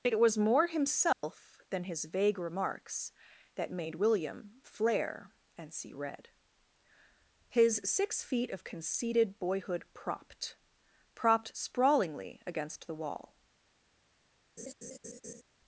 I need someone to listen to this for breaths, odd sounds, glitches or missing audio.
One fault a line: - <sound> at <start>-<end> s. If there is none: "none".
- dropout at 1.1-1.2 s
- laugh at 14.6-15.4 s